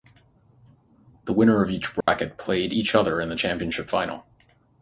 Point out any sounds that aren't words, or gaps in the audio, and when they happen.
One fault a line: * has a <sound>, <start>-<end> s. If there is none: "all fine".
* has a dropout, 2.0-2.1 s